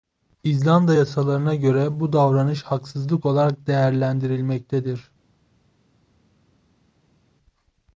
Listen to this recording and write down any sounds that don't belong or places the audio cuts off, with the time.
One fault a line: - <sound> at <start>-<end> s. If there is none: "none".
none